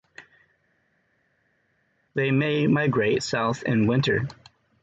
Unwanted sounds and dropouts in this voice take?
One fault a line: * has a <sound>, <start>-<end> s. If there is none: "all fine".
all fine